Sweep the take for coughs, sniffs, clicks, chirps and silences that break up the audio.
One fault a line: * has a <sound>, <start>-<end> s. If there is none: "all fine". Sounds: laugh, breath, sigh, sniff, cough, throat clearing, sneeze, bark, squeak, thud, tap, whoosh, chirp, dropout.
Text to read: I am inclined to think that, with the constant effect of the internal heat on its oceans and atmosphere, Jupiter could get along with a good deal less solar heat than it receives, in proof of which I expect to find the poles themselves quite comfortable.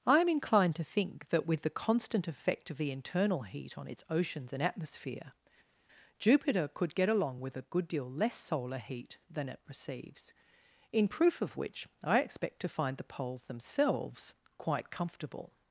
all fine